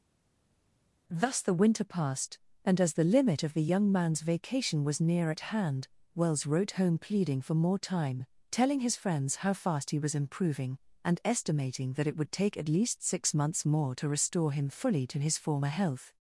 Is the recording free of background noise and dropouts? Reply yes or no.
yes